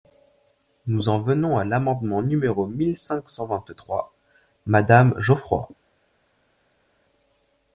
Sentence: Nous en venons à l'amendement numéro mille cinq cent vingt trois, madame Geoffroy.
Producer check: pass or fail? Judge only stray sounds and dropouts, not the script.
pass